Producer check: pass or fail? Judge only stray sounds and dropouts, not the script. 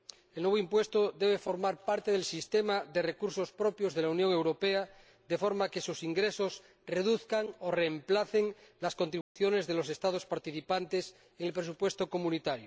fail